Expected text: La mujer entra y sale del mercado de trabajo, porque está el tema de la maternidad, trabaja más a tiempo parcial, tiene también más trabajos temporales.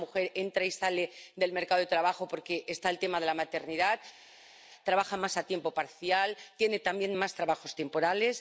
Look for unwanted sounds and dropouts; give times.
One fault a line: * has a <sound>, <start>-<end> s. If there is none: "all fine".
all fine